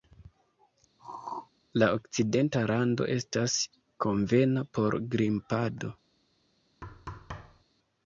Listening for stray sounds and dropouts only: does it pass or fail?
fail